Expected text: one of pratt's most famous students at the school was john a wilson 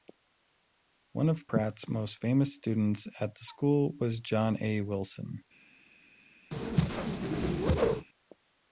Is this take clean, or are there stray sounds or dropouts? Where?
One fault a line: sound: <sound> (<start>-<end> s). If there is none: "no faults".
sound: whoosh (6.5-8.1 s)